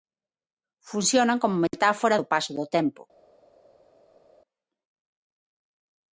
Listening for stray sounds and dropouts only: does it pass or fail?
pass